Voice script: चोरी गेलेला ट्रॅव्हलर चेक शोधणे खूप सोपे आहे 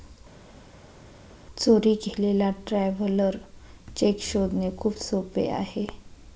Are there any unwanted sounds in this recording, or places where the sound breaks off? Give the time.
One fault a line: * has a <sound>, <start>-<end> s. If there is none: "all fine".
all fine